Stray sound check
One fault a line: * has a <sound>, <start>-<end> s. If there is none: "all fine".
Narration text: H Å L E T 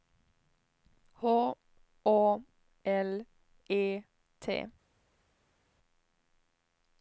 all fine